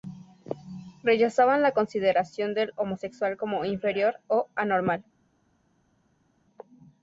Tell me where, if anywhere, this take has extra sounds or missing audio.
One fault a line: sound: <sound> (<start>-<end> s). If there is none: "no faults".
no faults